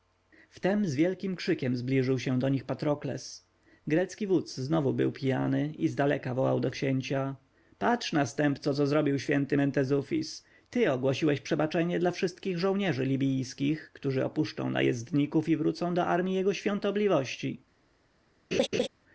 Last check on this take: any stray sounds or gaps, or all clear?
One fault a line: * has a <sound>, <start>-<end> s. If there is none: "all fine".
* has a laugh, 18.5-18.9 s